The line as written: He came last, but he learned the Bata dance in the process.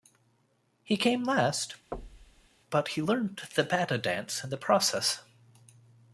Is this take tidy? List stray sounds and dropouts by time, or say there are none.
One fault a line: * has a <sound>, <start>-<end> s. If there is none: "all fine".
* has a thud, 1.9-2.5 s